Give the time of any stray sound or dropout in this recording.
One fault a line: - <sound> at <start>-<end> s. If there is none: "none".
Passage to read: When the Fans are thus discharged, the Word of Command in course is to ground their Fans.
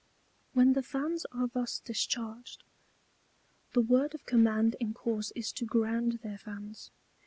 none